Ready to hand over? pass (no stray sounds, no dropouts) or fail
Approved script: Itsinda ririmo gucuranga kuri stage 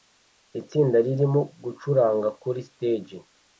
pass